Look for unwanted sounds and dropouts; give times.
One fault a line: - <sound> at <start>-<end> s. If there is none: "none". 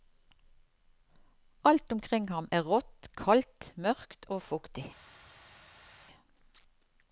none